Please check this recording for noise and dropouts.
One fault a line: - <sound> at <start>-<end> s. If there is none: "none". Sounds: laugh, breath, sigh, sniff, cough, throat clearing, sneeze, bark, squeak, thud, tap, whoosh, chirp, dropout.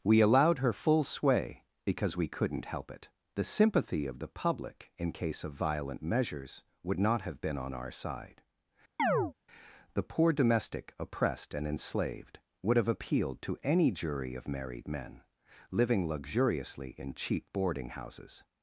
- chirp at 9.0-9.3 s